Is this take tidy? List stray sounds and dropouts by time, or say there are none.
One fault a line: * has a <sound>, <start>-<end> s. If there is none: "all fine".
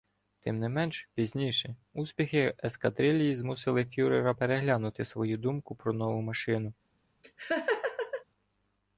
* has a laugh, 7.2-8.2 s